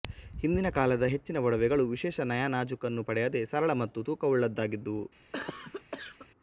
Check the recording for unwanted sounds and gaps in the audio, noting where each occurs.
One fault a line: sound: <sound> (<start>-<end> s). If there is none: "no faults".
sound: cough (5.3-6.3 s)